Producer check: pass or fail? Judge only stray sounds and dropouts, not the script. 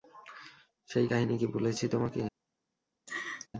fail